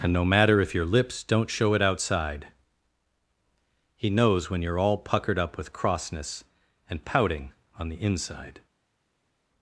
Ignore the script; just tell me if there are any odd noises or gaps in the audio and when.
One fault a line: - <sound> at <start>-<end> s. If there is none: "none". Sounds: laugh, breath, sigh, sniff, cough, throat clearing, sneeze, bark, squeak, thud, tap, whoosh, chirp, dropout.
none